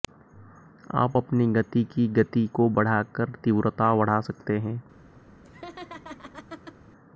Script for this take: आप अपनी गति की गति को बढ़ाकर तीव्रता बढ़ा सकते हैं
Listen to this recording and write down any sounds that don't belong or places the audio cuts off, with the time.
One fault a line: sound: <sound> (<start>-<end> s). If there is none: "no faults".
sound: laugh (5.4-6.8 s)